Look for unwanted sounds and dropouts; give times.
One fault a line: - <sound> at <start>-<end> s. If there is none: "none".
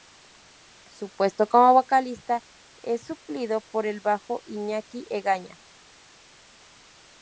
none